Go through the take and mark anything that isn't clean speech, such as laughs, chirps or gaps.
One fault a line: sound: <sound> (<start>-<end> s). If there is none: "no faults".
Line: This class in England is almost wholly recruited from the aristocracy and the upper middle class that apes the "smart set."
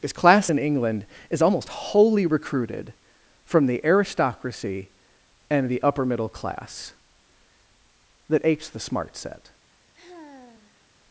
sound: sigh (9.9-10.8 s)